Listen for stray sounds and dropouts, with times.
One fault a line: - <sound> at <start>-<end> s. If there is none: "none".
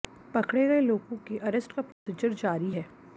- dropout at 1.9-2.1 s